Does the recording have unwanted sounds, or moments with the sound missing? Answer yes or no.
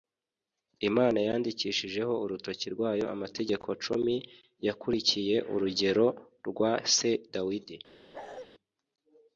yes